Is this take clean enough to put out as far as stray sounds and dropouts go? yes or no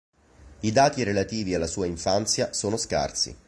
yes